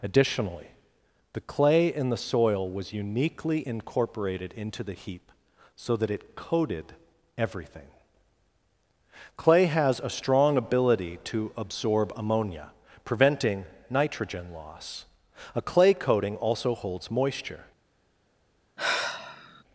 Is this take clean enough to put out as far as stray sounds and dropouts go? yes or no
no